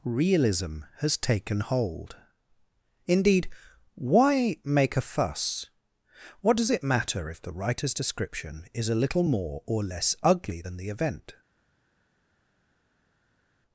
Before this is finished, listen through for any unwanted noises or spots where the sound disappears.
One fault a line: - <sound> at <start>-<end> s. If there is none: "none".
none